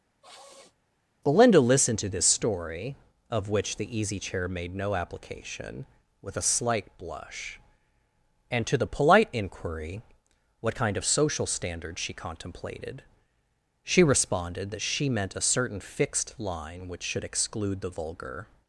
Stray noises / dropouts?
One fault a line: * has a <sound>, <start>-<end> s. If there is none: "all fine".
* has a sniff, 0.2-0.8 s